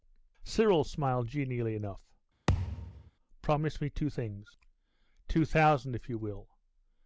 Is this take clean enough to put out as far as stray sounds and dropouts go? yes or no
no